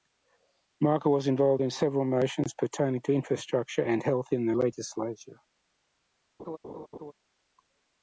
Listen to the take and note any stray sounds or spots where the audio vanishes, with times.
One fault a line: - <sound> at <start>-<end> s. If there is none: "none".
- laugh at 6.4-7.1 s